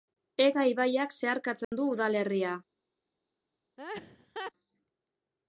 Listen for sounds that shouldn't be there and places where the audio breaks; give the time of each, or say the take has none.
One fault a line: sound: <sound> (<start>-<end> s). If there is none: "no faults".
sound: dropout (1.6-1.7 s)
sound: laugh (3.8-4.5 s)